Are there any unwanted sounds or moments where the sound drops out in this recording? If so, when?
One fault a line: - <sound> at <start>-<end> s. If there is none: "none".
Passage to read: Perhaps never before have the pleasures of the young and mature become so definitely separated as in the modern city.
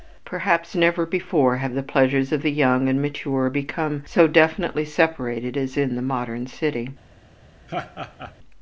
- laugh at 7.7-8.3 s